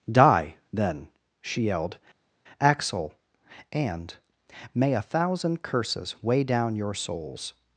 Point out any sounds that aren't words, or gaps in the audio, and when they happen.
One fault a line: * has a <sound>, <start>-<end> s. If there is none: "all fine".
all fine